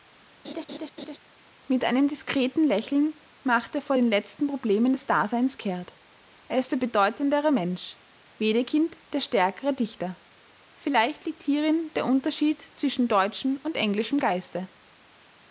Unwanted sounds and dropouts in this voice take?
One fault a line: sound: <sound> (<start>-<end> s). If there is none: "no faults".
sound: laugh (0.4-1.2 s)